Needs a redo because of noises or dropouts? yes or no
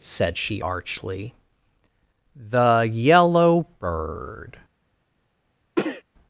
yes